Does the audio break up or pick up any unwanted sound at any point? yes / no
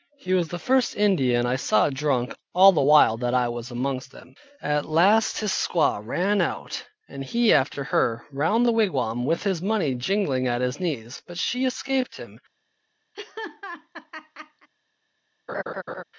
yes